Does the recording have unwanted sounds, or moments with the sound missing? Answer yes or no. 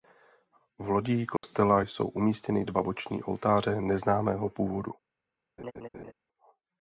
yes